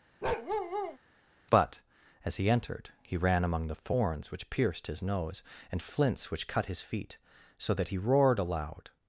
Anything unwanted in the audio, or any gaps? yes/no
yes